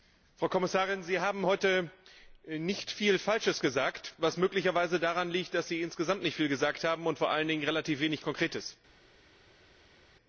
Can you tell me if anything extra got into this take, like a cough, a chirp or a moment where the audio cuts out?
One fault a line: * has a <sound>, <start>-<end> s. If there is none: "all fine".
all fine